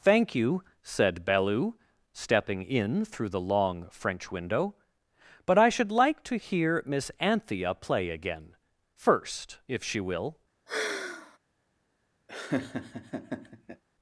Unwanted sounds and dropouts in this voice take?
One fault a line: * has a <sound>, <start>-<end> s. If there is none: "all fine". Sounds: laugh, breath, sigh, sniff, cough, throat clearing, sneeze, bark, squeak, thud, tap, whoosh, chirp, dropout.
* has a sigh, 10.7-11.4 s
* has a laugh, 12.3-13.8 s